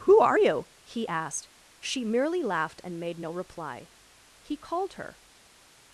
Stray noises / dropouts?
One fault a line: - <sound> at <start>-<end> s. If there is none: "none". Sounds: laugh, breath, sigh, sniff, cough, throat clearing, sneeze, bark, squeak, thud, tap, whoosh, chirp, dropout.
none